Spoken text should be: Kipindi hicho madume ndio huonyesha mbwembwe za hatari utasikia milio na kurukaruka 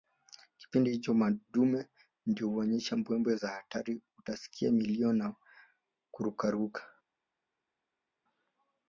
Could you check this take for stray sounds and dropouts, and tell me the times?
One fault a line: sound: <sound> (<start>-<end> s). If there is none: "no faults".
no faults